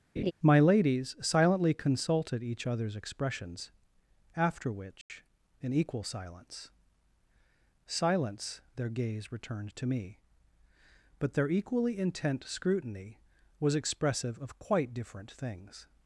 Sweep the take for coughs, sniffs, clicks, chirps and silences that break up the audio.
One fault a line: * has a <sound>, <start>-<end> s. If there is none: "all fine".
* has a laugh, 0.2-0.3 s
* has a dropout, 5.0-5.1 s